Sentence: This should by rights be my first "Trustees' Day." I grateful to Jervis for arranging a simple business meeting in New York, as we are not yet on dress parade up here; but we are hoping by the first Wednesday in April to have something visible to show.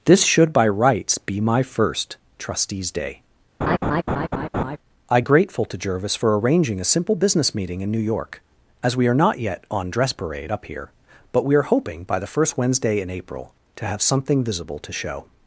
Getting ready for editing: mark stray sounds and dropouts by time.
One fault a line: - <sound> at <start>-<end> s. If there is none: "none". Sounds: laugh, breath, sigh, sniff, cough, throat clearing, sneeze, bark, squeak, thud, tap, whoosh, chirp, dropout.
- laugh at 3.6-4.8 s